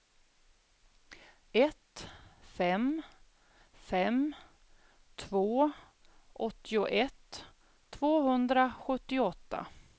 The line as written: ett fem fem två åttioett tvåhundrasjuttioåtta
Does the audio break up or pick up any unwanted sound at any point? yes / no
no